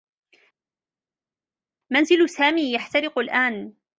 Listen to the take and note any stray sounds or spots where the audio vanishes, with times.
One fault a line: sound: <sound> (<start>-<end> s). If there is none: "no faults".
no faults